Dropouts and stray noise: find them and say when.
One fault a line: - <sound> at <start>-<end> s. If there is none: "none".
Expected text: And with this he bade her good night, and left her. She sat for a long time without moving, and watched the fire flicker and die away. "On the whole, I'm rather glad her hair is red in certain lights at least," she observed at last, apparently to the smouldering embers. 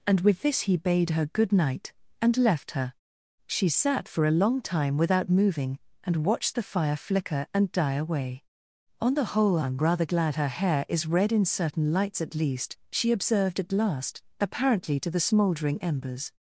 none